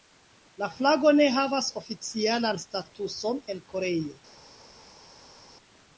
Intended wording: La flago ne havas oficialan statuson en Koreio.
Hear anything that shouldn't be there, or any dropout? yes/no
no